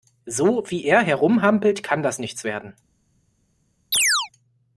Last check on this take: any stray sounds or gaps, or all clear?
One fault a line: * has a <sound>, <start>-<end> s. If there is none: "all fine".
* has a chirp, 3.9-4.3 s